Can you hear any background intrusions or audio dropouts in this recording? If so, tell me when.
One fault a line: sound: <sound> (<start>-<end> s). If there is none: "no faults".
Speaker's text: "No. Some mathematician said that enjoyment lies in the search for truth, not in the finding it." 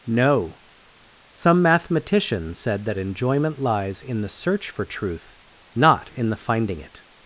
no faults